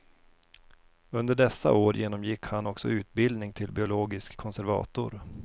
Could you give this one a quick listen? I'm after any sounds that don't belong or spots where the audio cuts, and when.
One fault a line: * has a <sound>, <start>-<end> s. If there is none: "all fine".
all fine